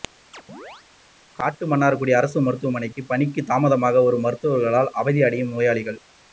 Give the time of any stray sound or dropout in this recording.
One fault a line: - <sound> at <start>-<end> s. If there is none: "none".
- chirp at 0.3-0.9 s